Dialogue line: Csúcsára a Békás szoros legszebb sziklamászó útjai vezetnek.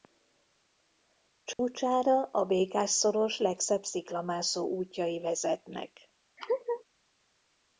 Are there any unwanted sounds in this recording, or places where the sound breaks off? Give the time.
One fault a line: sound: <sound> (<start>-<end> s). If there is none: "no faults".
sound: dropout (1.5-1.6 s)
sound: laugh (6.4-6.8 s)